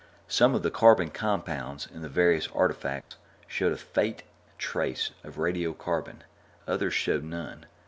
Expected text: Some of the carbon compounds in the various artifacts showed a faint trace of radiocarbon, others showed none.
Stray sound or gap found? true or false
true